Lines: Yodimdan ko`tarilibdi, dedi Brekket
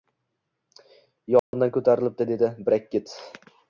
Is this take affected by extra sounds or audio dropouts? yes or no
yes